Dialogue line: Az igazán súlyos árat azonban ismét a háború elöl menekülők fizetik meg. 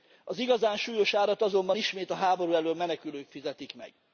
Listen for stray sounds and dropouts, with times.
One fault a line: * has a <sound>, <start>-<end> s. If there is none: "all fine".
all fine